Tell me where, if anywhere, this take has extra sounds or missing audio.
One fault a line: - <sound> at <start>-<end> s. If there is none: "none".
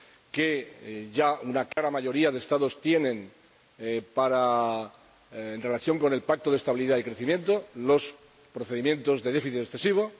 - dropout at 1.7-1.8 s